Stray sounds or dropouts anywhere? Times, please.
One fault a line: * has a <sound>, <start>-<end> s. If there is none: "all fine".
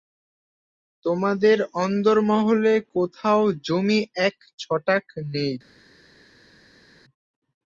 all fine